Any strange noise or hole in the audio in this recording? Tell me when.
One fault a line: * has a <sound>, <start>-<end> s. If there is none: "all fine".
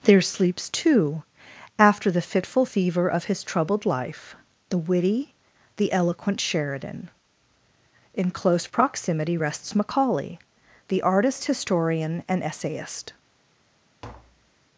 * has a tap, 14.0-14.6 s